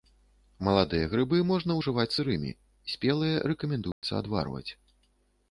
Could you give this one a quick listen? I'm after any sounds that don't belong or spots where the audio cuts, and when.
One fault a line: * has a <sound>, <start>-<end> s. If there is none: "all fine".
* has a dropout, 3.9-4.0 s